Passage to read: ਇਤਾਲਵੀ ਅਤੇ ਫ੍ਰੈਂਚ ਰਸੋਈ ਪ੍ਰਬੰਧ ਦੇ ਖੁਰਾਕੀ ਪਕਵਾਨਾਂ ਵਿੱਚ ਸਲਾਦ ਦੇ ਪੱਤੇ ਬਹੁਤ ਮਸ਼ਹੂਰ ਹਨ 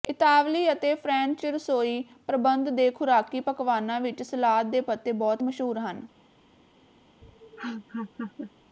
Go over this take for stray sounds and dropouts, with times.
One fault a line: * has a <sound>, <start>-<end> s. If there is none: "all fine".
* has a laugh, 7.2-8.5 s